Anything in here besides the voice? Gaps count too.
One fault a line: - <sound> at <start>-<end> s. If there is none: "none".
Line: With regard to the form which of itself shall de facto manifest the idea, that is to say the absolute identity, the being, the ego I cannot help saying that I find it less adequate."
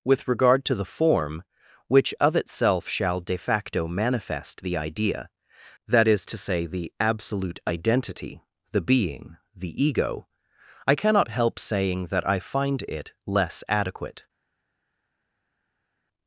none